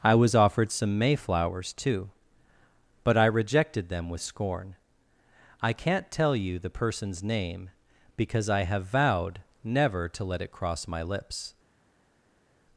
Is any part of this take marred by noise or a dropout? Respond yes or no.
no